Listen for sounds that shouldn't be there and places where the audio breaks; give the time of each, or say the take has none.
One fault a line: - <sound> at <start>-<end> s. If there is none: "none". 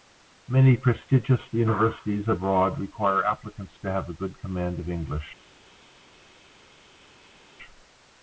none